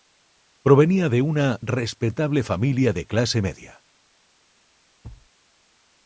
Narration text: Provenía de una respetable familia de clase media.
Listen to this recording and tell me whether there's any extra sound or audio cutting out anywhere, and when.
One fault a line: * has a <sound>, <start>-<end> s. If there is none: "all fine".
* has a thud, 5.0-5.3 s